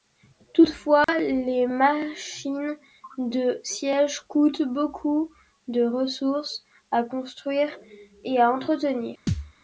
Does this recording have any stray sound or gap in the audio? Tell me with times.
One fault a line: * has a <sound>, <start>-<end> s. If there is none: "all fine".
* has a dropout, 1.0-1.1 s
* has a thud, 9.3-9.5 s